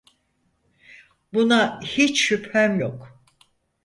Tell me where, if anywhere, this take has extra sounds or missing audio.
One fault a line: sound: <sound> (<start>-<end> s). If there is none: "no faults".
no faults